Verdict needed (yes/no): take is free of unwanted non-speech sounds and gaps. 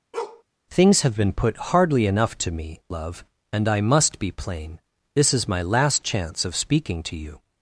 no